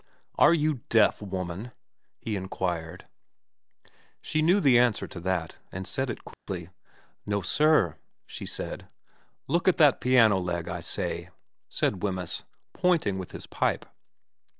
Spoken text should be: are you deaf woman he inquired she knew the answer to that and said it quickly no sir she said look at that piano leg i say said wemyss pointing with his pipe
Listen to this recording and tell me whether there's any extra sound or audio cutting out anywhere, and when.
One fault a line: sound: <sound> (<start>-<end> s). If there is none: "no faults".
sound: dropout (6.3-6.5 s)